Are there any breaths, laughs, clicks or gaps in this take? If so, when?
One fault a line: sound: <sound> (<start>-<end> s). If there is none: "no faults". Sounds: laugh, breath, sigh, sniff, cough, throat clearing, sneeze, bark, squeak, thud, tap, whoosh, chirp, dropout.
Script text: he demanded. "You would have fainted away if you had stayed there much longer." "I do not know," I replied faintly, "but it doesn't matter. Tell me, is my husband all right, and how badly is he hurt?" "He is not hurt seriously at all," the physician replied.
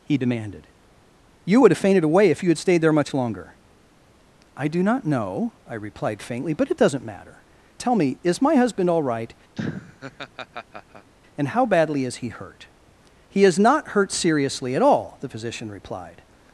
sound: laugh (9.5-11.1 s)